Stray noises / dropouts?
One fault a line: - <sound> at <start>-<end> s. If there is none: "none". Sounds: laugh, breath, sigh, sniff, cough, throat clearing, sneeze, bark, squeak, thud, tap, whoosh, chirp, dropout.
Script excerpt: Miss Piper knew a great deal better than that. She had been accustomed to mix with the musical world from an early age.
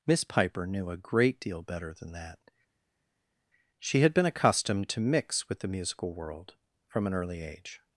none